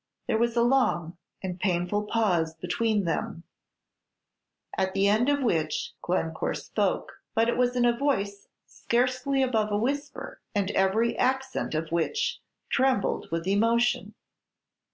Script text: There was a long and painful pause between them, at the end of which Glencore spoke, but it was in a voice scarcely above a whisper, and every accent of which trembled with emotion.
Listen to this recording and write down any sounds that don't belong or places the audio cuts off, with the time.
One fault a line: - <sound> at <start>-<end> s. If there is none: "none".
none